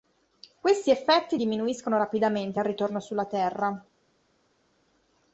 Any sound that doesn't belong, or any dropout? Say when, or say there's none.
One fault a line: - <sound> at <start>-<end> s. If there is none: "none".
none